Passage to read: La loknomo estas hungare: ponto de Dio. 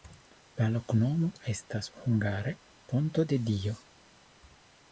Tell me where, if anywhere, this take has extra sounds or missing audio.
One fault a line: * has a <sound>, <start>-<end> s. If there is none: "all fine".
all fine